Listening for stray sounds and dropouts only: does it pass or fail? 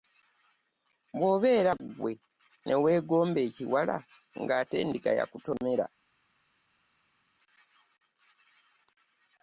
pass